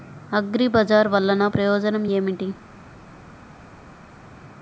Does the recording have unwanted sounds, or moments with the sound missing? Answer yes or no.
no